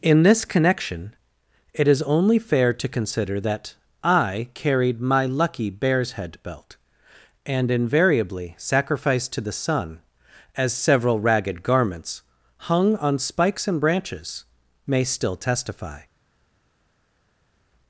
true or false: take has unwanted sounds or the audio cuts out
false